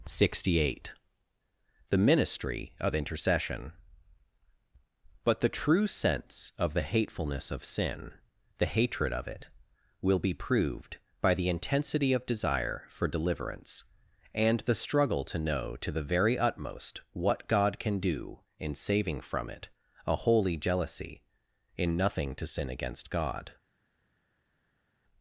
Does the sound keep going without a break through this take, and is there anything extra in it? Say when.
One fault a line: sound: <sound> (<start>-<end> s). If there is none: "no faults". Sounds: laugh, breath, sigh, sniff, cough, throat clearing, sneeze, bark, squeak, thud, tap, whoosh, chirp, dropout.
no faults